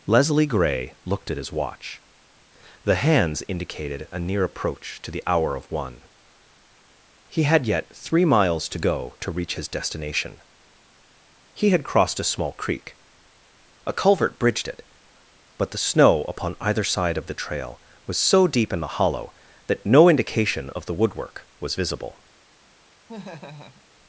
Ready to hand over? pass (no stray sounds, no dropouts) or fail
fail